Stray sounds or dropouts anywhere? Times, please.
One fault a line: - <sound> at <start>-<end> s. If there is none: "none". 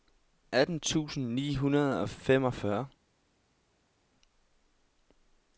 none